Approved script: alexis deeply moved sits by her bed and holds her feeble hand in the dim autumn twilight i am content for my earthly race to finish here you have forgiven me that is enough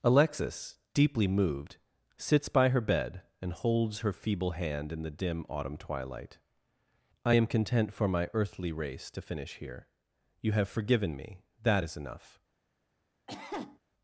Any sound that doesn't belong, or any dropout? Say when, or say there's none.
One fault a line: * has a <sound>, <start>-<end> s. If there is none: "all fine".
* has a cough, 13.3-13.8 s